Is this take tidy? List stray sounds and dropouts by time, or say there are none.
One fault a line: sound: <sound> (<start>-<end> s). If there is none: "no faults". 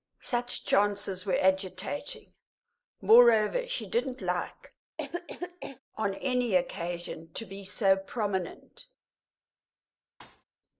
sound: cough (5.0-5.8 s)
sound: thud (10.2-10.4 s)